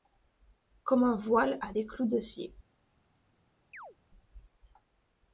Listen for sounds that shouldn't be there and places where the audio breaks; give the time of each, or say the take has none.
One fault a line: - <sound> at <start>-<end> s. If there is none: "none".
- chirp at 3.7-4.0 s